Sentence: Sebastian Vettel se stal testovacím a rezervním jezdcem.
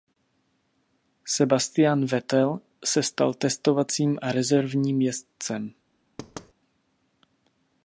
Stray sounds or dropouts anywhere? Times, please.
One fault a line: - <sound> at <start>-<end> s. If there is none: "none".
- thud at 6.2-6.5 s